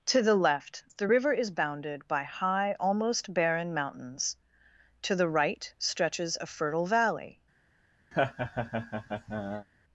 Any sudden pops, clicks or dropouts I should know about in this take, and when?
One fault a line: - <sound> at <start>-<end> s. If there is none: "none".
- laugh at 8.1-9.7 s